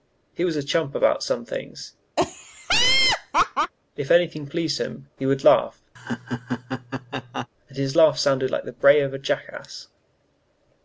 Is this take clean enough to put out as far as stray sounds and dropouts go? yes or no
no